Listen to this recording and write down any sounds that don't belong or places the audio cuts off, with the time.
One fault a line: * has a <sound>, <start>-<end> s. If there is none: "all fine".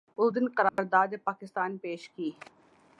* has a dropout, 0.7-0.8 s